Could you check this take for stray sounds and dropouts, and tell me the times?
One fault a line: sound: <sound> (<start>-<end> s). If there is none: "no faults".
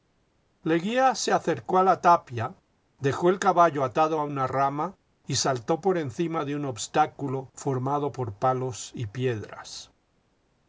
no faults